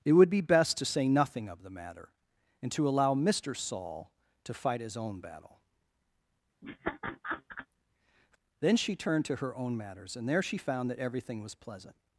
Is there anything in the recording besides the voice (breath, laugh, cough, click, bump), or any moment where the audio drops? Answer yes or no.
yes